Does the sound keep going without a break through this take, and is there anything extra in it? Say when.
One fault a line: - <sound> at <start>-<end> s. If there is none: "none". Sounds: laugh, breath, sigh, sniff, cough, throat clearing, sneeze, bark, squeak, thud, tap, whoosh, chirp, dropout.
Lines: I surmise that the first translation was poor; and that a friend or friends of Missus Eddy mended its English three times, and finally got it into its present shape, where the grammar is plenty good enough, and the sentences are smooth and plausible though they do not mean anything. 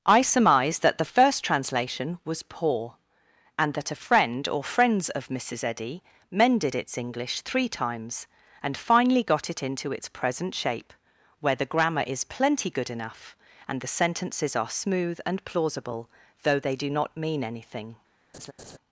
- laugh at 18.3-18.8 s